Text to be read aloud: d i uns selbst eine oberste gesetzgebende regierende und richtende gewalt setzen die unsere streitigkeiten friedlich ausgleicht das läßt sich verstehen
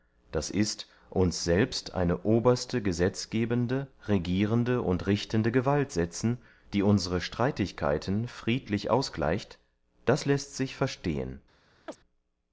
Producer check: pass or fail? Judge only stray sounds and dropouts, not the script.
fail